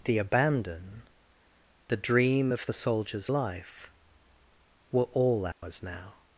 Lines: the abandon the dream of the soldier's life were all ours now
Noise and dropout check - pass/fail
fail